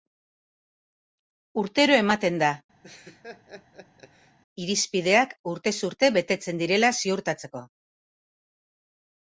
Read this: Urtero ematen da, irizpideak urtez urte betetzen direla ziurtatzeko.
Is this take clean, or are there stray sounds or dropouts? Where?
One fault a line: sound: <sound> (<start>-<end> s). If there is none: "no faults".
sound: laugh (2.8-4.4 s)